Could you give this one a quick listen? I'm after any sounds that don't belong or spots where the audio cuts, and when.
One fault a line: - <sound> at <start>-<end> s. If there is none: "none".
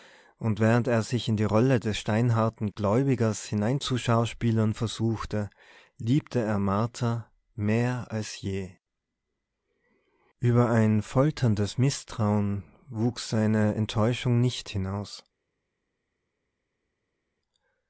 none